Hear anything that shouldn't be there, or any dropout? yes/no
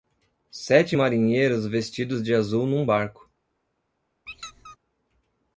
yes